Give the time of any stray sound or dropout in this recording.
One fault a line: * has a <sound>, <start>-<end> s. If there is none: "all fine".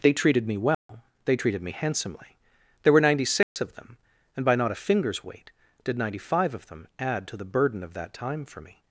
* has a dropout, 0.7-0.9 s
* has a dropout, 3.4-3.6 s